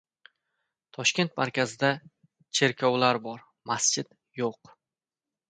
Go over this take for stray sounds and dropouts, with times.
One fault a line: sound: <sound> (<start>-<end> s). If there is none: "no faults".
no faults